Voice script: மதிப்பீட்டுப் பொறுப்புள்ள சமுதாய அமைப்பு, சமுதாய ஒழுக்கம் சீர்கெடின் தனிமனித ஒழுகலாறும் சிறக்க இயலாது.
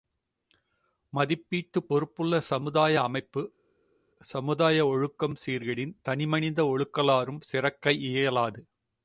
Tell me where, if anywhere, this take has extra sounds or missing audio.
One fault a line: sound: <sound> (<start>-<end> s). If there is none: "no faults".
no faults